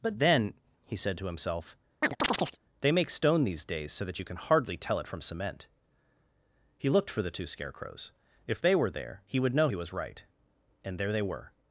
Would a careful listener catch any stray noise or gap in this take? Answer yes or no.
yes